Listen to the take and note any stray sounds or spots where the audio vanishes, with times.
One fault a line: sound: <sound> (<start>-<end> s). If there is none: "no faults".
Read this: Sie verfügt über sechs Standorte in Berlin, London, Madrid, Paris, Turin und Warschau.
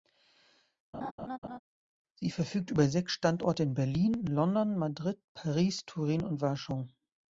sound: laugh (0.9-1.6 s)